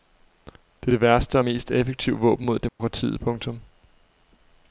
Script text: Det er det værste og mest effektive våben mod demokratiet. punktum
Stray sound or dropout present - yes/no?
yes